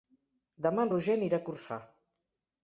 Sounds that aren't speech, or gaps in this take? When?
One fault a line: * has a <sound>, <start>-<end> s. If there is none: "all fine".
all fine